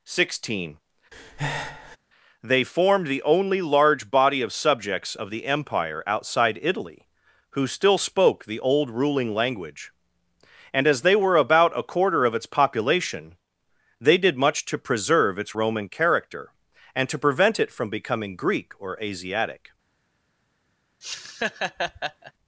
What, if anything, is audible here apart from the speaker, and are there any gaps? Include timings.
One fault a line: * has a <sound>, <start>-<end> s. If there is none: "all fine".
* has a breath, 1.1-2.0 s
* has a laugh, 21.0-22.3 s